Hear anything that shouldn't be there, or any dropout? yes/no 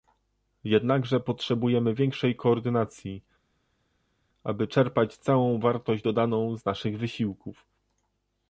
no